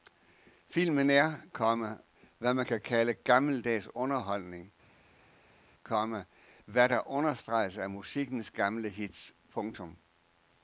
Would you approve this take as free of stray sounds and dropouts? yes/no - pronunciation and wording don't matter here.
yes